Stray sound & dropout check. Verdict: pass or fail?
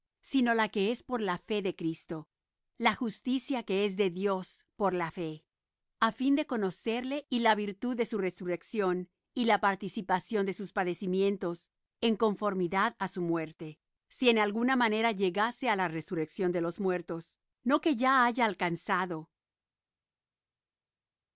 pass